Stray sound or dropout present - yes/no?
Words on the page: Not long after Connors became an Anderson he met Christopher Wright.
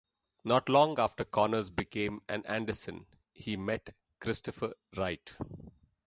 no